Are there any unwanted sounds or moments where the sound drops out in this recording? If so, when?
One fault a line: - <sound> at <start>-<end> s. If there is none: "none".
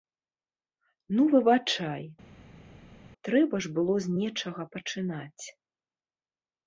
none